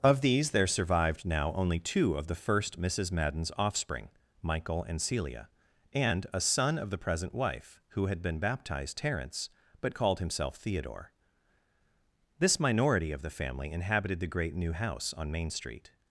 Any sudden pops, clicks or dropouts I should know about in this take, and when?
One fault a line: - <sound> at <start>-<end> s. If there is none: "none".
none